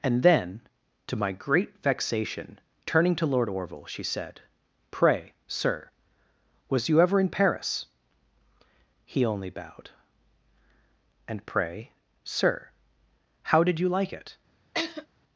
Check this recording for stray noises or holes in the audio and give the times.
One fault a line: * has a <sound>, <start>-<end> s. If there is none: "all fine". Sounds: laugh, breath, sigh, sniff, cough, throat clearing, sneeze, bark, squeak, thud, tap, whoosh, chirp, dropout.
* has a laugh, 14.7-15.1 s